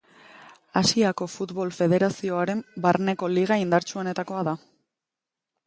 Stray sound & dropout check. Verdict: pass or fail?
pass